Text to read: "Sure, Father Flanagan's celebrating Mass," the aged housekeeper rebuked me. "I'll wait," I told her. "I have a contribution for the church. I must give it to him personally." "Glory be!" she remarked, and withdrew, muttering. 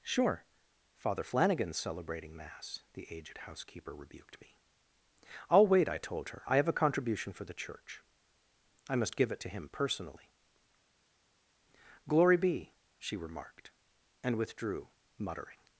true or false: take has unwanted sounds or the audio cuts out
false